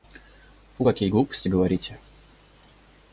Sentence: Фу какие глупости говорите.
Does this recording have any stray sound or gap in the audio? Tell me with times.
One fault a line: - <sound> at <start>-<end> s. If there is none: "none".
none